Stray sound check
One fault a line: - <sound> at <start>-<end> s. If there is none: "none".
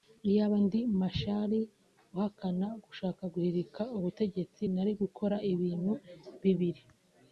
none